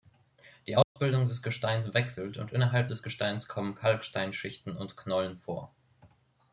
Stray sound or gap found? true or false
true